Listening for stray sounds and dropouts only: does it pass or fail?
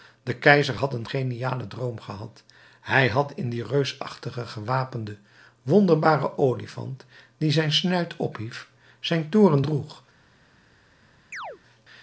fail